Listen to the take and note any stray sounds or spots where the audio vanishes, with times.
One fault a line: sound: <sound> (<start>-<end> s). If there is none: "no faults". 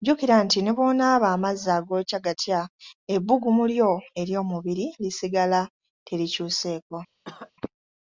sound: cough (7.2-7.5 s)